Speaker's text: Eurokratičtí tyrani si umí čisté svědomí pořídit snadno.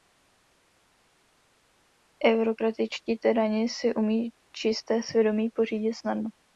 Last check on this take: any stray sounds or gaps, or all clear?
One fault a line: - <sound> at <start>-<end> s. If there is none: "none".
none